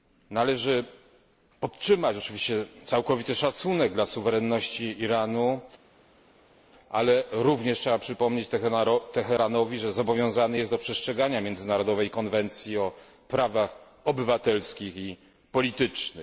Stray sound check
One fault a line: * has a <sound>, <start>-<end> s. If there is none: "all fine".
all fine